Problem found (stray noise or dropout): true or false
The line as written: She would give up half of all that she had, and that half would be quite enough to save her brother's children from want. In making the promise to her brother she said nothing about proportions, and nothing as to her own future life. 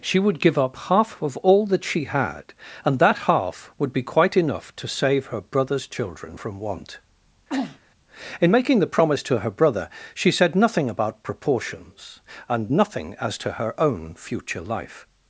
true